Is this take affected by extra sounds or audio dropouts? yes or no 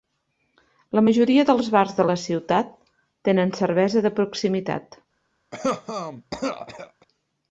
yes